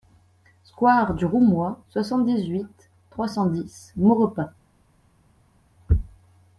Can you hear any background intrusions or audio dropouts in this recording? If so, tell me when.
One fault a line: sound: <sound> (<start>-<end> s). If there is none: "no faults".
no faults